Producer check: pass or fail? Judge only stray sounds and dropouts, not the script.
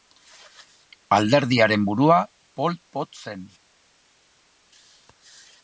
pass